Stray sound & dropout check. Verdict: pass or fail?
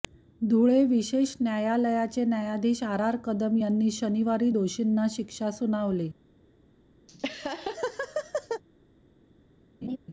fail